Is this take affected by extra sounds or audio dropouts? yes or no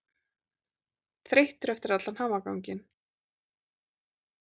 no